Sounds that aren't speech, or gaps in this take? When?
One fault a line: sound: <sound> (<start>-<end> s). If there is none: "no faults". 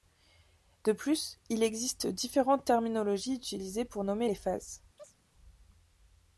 sound: chirp (5.0-5.2 s)